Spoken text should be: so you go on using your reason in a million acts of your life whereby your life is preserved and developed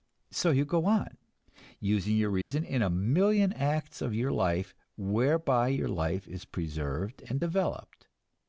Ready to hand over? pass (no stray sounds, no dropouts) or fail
fail